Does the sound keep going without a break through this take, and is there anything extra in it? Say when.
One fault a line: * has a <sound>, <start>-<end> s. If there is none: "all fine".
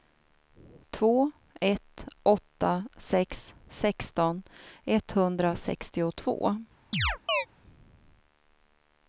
* has a chirp, 6.9-7.5 s